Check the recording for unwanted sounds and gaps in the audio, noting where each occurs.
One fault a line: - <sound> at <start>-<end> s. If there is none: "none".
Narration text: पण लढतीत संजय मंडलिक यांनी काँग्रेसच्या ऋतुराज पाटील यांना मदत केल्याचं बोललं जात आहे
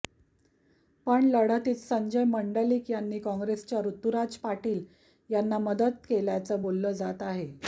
none